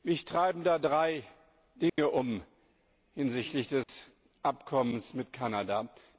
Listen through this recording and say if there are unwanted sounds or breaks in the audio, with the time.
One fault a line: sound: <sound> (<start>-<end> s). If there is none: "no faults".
sound: dropout (1.9-2.0 s)
sound: dropout (3.8-3.9 s)